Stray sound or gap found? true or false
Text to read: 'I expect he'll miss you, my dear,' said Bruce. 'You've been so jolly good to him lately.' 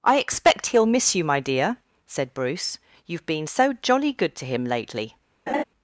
true